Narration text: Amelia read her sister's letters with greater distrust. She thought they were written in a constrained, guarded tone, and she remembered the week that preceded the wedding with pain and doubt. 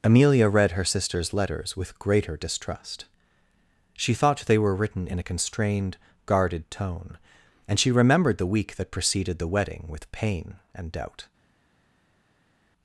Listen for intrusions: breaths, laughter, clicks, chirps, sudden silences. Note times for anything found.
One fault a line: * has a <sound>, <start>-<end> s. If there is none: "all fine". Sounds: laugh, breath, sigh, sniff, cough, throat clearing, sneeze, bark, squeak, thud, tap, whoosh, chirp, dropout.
all fine